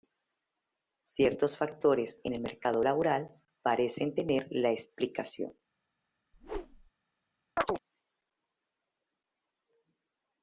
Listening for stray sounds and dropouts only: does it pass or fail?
fail